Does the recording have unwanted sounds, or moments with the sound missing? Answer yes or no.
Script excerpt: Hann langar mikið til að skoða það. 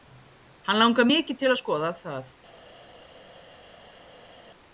no